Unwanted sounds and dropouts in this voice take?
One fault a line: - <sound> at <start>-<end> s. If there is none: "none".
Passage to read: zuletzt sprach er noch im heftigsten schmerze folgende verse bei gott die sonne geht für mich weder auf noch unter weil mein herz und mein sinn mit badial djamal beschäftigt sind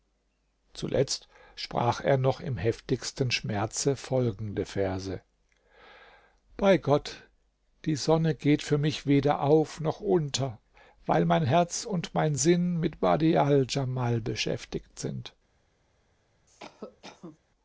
- cough at 16.5-17.4 s